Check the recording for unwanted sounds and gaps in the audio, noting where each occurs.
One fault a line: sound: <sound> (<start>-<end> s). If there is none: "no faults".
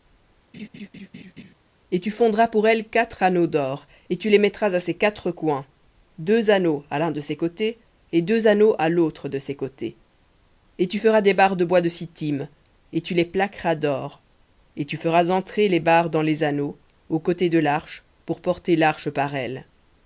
sound: laugh (0.5-1.5 s)